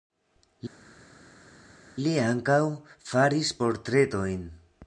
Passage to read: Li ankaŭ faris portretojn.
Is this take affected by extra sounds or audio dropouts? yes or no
no